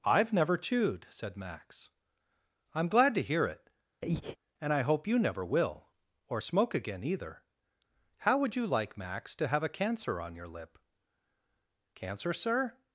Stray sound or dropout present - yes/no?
yes